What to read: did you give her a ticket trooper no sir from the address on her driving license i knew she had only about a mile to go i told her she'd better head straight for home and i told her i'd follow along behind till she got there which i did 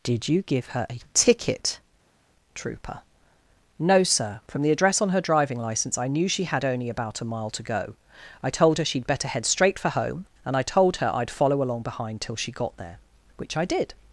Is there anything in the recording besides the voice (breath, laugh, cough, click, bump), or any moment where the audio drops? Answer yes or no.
no